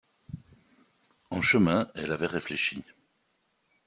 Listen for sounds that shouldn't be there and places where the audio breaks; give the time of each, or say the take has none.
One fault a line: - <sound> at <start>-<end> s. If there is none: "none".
none